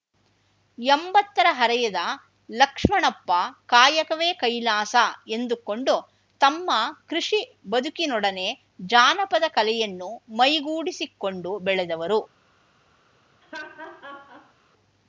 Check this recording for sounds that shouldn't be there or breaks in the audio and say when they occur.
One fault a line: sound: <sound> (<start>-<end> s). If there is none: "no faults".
sound: laugh (13.4-14.5 s)